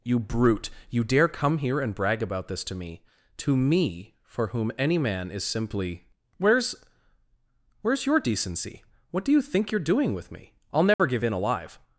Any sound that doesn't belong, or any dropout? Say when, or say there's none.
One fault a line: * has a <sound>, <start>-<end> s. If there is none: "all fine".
* has a dropout, 10.9-11.0 s